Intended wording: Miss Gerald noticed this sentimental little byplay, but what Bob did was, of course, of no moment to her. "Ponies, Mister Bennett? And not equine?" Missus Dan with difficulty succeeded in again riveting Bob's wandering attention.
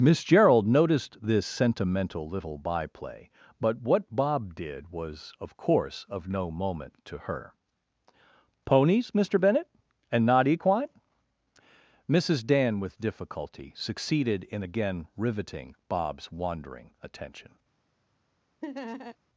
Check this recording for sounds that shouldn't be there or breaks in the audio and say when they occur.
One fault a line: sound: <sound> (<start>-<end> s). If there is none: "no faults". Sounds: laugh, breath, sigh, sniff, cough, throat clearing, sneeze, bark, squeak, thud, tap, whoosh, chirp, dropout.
sound: laugh (18.6-19.2 s)